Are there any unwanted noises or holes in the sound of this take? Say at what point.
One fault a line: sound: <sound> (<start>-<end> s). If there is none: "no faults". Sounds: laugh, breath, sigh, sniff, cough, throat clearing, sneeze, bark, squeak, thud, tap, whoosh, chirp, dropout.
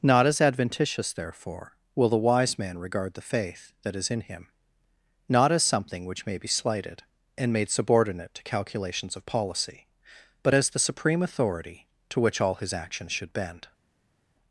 no faults